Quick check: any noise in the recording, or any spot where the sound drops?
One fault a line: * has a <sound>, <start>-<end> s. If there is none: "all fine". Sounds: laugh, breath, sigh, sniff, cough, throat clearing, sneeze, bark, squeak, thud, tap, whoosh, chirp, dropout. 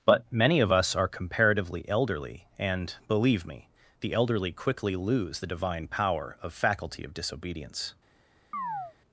* has a chirp, 8.5-8.9 s